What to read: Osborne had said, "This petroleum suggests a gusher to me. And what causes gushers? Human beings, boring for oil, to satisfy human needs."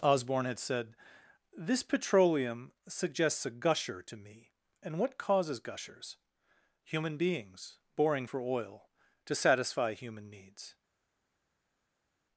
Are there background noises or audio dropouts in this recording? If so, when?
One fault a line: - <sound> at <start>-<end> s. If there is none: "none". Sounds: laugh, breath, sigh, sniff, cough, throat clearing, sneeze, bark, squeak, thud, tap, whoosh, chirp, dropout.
none